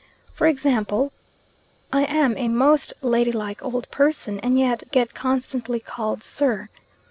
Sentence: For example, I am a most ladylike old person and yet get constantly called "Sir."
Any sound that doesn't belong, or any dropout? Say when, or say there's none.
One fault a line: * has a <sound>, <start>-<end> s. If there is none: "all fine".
all fine